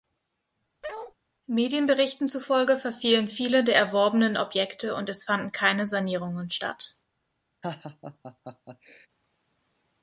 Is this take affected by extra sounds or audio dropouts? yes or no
yes